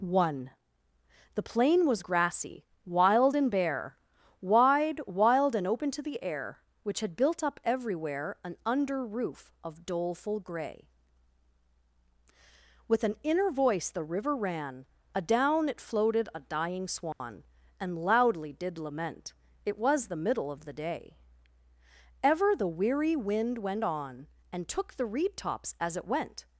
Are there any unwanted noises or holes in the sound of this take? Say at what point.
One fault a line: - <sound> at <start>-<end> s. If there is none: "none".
- dropout at 17.1-17.2 s